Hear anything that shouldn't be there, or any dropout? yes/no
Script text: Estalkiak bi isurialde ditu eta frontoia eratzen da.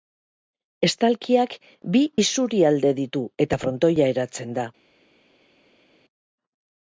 no